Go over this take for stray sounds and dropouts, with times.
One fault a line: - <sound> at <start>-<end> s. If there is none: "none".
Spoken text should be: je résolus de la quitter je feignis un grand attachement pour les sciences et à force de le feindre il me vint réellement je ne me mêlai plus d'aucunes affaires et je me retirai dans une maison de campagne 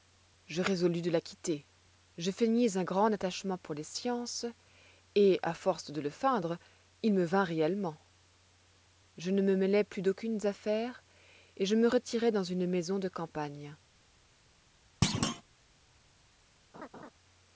- thud at 15.0-15.4 s
- laugh at 16.7-17.1 s